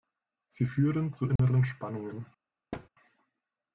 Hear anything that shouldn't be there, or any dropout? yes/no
yes